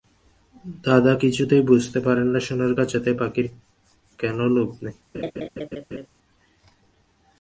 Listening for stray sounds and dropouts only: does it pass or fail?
fail